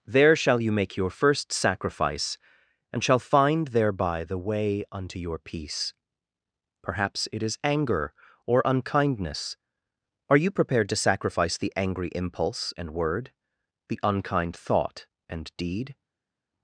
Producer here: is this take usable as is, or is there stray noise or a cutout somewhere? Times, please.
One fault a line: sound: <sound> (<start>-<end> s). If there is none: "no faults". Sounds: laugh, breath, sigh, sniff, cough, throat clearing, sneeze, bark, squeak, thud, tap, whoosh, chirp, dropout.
no faults